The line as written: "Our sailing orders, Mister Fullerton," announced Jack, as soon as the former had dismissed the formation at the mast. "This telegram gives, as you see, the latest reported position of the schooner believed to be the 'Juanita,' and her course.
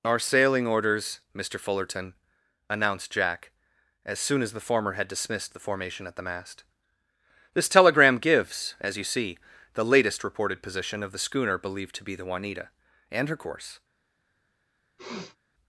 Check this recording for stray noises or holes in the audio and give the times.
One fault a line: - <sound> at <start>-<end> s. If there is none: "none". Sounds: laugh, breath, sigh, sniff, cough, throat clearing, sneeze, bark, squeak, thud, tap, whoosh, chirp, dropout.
- sniff at 15.0-15.4 s